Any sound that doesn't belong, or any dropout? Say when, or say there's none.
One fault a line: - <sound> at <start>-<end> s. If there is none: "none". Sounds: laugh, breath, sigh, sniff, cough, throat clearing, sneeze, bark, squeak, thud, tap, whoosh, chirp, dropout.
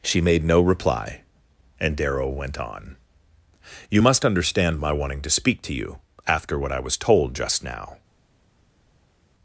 none